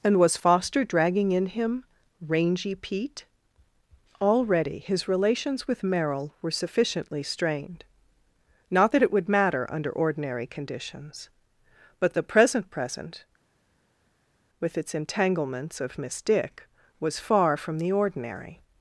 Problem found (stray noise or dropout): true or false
false